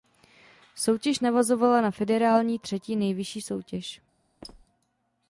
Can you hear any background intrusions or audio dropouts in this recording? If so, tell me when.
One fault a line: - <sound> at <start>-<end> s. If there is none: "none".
- squeak at 4.4-4.7 s